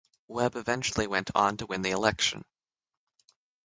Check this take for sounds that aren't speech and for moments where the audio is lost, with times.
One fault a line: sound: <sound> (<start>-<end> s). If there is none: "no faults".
no faults